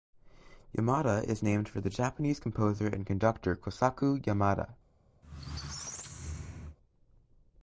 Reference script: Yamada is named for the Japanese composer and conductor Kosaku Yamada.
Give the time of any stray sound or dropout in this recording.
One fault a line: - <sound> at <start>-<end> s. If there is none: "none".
- squeak at 5.2-6.8 s